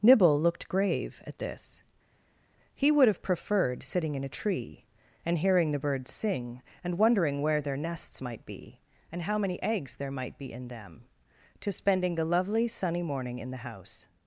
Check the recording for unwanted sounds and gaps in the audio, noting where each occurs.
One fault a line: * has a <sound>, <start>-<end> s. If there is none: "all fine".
all fine